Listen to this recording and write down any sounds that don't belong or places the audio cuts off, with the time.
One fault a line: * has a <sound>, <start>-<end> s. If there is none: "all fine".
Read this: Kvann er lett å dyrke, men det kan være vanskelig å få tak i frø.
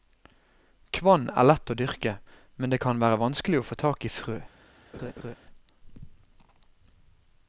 * has a laugh, 4.9-5.4 s